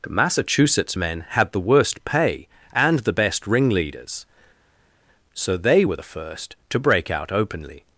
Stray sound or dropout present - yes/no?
no